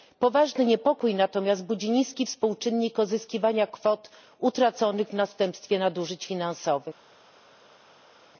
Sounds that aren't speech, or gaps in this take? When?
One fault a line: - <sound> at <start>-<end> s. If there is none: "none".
none